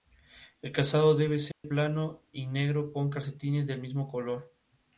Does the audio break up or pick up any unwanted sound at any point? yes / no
yes